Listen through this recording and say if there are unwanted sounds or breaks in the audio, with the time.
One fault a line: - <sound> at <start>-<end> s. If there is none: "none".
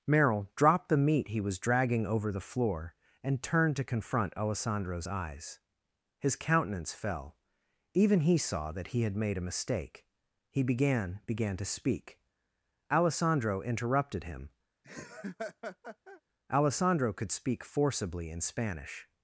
- laugh at 14.8-16.2 s